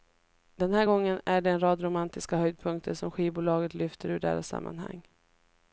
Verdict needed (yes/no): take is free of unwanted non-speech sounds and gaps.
yes